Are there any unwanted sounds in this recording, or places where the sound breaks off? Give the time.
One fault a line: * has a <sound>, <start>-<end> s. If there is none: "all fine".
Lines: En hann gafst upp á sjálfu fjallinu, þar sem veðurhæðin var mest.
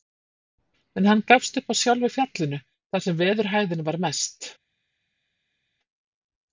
all fine